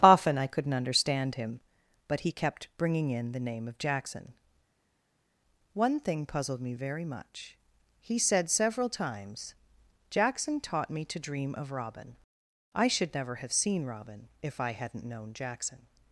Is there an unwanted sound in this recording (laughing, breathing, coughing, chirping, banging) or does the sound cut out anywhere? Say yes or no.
no